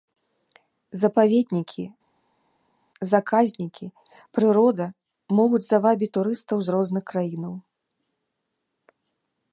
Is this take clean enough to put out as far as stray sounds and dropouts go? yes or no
yes